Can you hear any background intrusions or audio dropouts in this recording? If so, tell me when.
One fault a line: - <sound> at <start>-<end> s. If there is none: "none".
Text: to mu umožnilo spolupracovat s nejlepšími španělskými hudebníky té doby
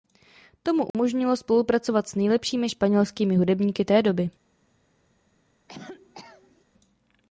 - dropout at 0.9-0.9 s
- cough at 5.7-6.6 s